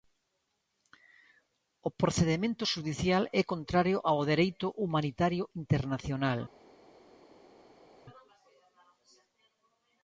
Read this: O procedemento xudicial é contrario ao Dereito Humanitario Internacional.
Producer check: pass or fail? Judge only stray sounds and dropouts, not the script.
pass